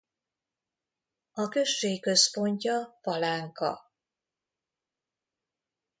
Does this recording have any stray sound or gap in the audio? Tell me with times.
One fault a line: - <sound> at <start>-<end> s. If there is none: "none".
none